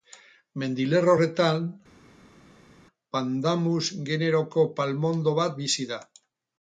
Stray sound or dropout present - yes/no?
no